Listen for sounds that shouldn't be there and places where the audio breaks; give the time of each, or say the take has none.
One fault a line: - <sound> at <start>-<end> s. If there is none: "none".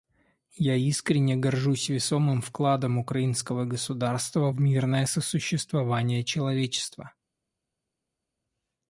none